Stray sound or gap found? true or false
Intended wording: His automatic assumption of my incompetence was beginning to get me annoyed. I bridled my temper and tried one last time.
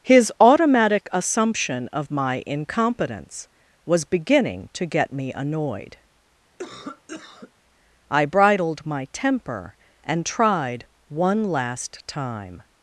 true